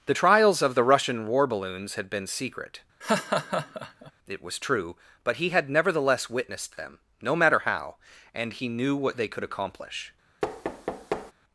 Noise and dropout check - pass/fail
fail